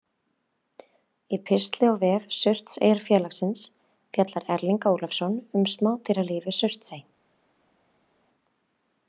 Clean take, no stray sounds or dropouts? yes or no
yes